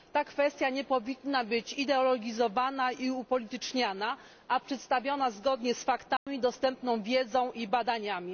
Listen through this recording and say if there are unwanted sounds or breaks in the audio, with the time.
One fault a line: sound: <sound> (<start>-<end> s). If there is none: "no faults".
sound: dropout (6.2-6.3 s)